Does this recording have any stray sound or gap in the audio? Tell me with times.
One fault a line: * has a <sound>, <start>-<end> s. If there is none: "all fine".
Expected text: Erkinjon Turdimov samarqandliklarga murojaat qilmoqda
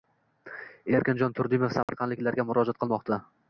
* has a dropout, 1.8-1.9 s